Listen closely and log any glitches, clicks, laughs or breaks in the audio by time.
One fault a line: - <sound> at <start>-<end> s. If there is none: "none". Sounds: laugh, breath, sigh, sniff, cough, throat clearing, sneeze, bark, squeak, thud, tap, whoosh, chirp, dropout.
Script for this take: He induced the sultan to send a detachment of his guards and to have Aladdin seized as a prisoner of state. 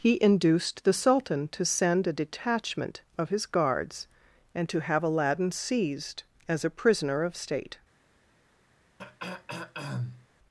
- throat clearing at 9.0-10.3 s